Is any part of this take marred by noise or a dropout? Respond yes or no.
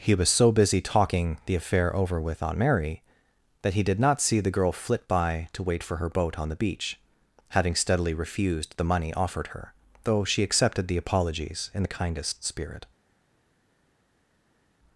no